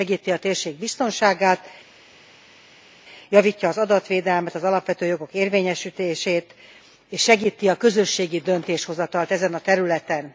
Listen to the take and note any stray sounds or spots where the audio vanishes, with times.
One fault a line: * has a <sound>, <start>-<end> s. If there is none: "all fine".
all fine